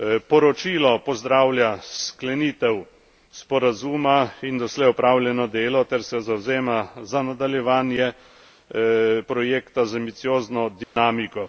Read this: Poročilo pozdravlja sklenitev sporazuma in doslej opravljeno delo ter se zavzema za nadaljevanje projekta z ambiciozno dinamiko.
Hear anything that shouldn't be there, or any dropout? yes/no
yes